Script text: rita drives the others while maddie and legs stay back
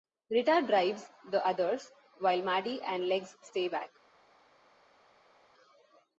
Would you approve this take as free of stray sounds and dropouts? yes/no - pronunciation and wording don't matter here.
yes